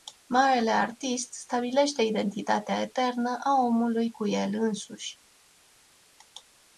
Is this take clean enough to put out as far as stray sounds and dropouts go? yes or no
yes